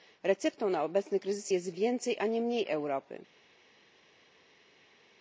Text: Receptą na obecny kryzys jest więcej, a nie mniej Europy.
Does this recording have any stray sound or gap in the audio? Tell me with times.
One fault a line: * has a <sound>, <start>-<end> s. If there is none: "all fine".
all fine